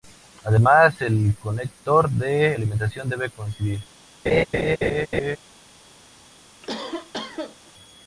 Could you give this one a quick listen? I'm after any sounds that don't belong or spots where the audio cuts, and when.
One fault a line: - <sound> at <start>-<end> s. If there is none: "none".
- laugh at 4.3-5.4 s
- cough at 6.6-7.7 s